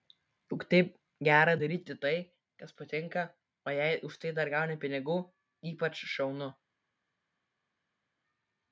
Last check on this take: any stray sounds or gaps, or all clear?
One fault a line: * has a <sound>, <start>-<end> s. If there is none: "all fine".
all fine